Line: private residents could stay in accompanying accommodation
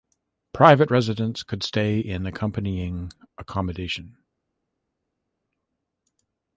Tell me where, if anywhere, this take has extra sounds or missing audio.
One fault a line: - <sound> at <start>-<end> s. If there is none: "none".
none